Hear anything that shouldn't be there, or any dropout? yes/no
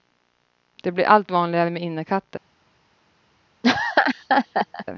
yes